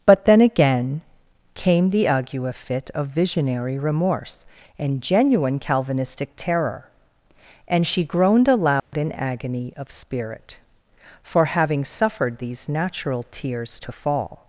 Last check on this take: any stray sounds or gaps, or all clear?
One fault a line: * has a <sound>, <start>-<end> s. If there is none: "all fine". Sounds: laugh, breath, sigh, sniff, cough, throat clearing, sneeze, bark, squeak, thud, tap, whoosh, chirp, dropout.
* has a dropout, 8.8-8.9 s